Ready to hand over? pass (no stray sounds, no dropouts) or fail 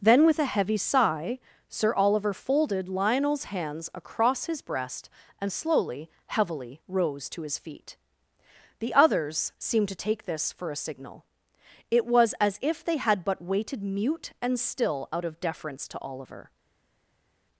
pass